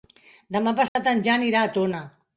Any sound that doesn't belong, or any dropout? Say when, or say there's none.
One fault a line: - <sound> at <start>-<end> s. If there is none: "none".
- dropout at 0.9-1.0 s